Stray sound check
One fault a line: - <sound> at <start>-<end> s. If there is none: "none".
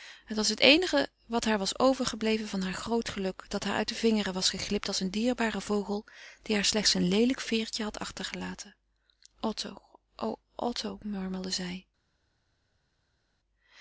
none